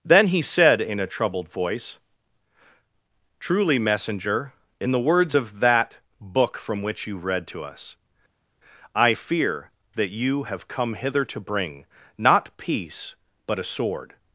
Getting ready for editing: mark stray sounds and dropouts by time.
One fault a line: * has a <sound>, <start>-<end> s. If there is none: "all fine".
all fine